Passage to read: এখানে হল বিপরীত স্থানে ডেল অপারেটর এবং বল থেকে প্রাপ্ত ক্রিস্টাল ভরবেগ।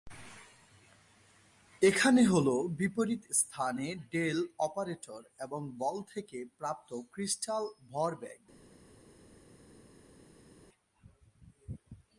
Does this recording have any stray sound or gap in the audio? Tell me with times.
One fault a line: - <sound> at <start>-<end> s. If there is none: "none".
none